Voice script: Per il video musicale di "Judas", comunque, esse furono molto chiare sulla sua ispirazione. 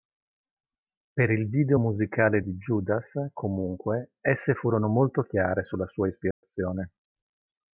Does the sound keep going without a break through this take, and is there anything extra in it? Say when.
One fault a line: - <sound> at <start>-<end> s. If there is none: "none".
- dropout at 6.3-6.4 s